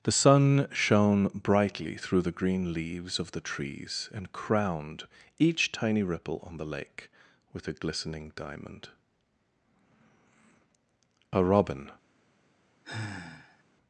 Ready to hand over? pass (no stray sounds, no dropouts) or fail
fail